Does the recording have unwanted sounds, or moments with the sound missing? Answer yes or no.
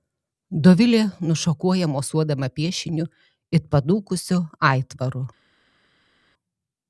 no